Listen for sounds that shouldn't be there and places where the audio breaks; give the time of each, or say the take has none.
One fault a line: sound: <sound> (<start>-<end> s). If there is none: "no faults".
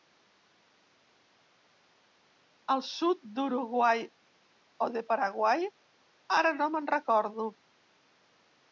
no faults